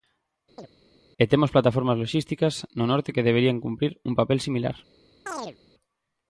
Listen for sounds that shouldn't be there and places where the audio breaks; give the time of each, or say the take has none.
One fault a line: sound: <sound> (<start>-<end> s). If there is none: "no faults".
sound: chirp (0.6-0.7 s)
sound: chirp (5.3-5.6 s)